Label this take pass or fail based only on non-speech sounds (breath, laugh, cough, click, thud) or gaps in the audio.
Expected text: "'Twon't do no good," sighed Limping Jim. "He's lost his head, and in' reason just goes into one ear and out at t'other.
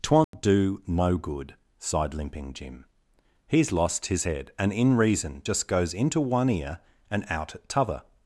fail